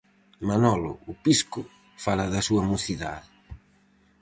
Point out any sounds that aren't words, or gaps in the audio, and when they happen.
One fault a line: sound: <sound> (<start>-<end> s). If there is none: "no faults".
no faults